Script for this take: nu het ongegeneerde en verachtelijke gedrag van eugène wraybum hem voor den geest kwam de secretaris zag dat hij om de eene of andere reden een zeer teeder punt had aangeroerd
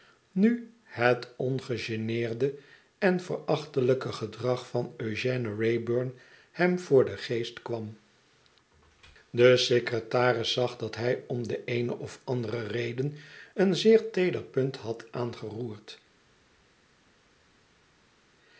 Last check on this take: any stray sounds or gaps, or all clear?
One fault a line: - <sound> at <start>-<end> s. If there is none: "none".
none